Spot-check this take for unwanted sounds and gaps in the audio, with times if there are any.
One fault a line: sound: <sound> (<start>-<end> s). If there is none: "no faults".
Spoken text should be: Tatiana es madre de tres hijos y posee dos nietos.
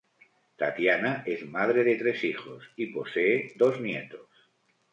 no faults